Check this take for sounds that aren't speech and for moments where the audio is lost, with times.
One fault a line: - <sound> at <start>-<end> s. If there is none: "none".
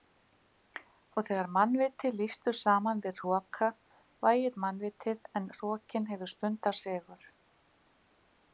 none